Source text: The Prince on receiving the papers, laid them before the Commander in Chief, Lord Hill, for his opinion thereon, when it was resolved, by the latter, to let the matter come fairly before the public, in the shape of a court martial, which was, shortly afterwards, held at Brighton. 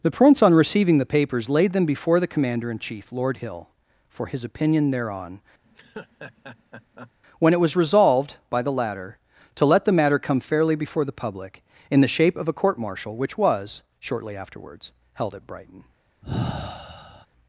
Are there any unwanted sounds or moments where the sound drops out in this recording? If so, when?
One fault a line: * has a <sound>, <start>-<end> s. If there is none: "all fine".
* has a laugh, 5.6-7.1 s
* has a sigh, 16.2-17.3 s